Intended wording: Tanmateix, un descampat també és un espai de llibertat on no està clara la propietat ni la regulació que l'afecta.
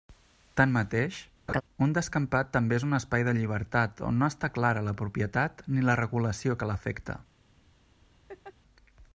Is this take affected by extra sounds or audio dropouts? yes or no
yes